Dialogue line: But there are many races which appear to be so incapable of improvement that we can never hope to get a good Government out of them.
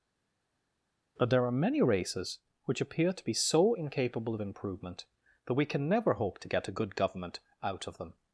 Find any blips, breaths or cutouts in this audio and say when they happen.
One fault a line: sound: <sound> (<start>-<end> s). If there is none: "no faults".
no faults